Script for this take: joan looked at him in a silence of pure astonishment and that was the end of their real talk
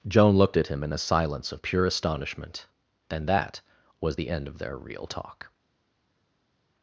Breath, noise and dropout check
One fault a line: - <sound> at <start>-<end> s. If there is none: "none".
none